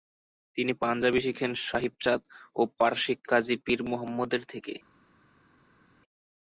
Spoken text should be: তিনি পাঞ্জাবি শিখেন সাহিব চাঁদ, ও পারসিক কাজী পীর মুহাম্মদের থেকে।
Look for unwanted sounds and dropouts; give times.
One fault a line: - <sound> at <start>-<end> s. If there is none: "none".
none